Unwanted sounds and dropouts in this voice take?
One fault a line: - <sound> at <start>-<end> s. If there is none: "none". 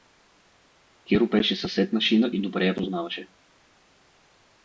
none